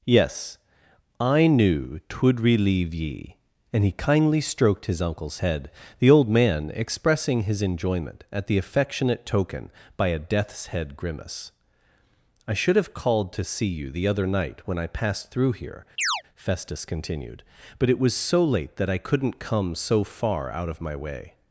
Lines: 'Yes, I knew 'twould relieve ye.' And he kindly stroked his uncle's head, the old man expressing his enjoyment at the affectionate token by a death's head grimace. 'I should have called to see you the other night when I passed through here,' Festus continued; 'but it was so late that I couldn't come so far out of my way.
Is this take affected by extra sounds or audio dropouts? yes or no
yes